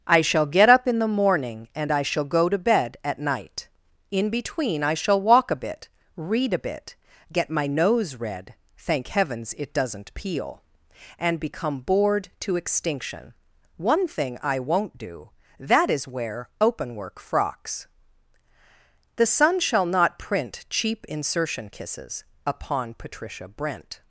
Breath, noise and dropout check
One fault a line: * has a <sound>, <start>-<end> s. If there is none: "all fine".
all fine